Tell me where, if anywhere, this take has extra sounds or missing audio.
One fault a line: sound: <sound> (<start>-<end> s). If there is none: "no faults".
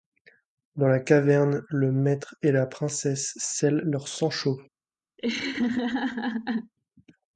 sound: laugh (5.2-6.7 s)